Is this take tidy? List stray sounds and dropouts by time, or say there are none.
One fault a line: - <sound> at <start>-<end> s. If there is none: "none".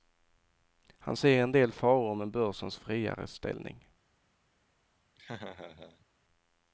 - laugh at 5.2-6.1 s